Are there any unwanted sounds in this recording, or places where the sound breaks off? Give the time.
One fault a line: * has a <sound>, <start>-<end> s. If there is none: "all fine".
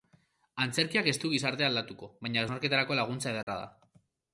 * has a dropout, 3.4-3.5 s